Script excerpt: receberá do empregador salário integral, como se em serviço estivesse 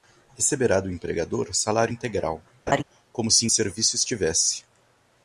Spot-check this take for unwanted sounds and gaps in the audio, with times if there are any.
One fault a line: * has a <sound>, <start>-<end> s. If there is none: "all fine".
* has a laugh, 2.7-2.8 s